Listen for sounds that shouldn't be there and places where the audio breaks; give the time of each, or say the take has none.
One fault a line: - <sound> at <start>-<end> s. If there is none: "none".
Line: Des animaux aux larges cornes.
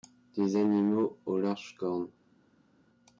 none